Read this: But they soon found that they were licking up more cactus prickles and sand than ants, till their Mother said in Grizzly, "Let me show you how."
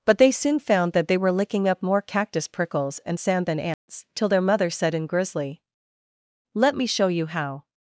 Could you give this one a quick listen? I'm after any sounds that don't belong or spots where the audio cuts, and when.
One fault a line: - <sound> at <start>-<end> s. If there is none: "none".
- dropout at 3.7-3.9 s